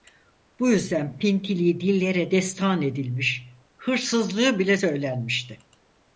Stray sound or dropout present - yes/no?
no